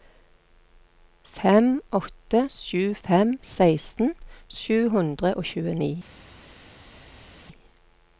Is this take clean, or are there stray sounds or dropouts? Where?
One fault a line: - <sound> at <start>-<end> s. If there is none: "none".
none